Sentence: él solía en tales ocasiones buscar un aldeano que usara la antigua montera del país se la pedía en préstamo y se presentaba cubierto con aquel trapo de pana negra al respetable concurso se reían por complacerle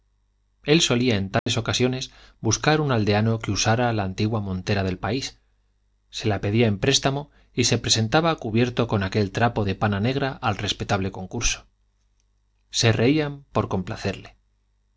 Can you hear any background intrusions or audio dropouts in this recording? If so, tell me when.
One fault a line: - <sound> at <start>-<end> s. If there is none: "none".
- dropout at 1.4-1.5 s